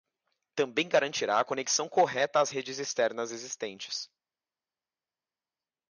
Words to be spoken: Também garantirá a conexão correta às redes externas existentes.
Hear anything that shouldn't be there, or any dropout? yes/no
no